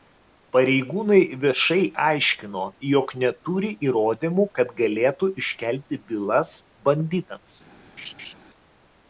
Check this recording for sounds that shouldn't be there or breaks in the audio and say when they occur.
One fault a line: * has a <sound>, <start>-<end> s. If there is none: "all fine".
* has a laugh, 8.0-8.3 s